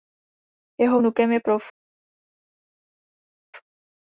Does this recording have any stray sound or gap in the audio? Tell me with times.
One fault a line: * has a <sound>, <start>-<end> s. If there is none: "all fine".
all fine